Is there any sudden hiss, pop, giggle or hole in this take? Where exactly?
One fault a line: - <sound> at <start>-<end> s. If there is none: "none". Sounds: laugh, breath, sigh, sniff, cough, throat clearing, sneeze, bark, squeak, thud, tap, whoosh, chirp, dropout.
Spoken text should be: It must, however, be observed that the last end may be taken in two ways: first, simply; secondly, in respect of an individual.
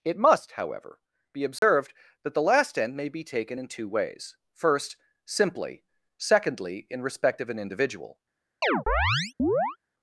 - dropout at 1.6-1.6 s
- chirp at 8.6-9.8 s